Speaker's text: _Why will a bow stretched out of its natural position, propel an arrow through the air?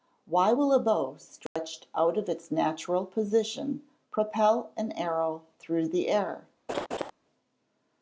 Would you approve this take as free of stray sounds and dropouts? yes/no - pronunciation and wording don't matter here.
no